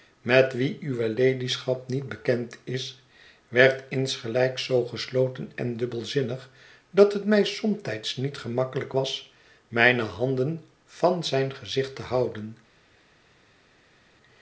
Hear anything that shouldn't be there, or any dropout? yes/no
no